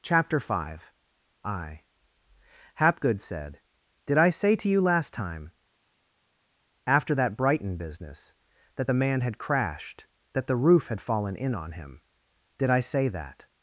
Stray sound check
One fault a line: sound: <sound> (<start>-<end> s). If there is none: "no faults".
no faults